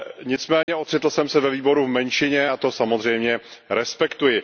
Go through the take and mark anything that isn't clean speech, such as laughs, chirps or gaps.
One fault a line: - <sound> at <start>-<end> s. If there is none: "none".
- dropout at 0.6-0.7 s